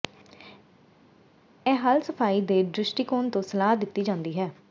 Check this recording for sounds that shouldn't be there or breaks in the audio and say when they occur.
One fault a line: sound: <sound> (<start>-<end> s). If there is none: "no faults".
no faults